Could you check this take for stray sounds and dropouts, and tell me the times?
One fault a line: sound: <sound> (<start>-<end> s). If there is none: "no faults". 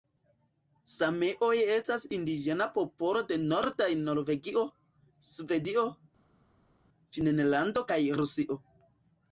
no faults